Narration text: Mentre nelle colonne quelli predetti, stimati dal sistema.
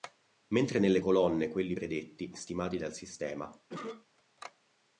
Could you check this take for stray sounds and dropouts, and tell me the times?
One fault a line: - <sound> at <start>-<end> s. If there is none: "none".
- cough at 3.7-4.1 s